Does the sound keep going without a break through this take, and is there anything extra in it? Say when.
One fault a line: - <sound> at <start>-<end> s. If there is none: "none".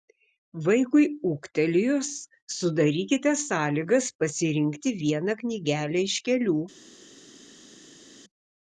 none